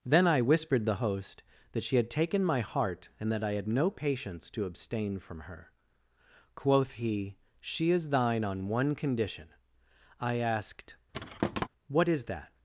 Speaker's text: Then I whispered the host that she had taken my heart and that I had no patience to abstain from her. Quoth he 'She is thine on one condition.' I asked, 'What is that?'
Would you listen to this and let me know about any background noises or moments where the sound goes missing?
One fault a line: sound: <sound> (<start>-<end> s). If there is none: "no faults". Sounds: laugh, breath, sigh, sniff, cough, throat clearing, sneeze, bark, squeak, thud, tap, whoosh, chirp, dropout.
sound: thud (11.1-11.7 s)